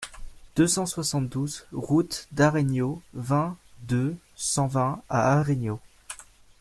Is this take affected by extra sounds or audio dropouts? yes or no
no